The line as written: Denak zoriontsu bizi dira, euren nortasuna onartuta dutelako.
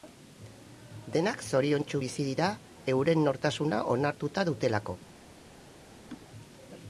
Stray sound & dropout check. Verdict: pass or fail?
fail